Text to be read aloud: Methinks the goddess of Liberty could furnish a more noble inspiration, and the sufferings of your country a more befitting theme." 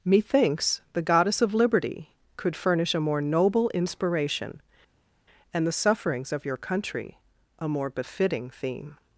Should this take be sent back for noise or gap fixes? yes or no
no